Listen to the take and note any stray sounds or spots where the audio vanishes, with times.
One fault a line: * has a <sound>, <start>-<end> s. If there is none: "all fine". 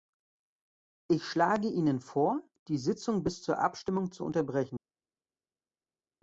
all fine